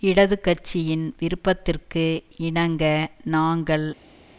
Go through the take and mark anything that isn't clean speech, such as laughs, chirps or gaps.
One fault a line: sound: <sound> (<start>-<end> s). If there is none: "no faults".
no faults